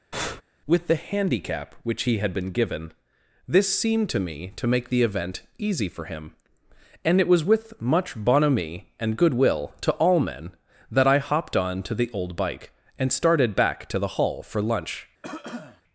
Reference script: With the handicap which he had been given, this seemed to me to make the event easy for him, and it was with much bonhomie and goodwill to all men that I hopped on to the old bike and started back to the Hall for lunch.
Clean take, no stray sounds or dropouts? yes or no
no